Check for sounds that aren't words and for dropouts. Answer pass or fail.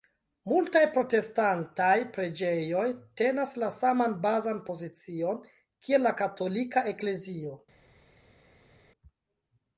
pass